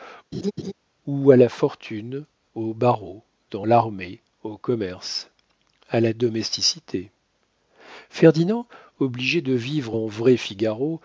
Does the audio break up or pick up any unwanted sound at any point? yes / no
yes